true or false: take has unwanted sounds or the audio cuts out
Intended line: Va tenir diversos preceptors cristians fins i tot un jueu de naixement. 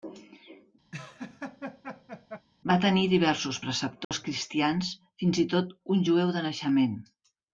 true